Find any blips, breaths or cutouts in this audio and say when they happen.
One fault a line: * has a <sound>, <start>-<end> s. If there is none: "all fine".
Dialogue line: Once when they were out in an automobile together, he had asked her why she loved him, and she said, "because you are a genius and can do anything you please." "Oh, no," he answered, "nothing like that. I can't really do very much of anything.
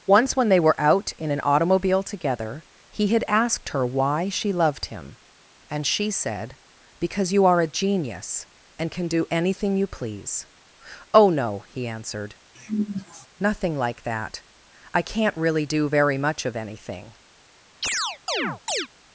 * has a sigh, 12.5-13.3 s
* has a chirp, 17.8-18.9 s